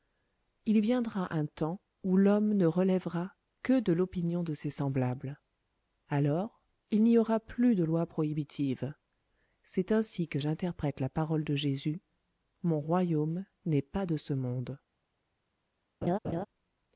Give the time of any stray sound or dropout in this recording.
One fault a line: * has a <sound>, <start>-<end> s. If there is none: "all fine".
* has a laugh, 16.0-16.5 s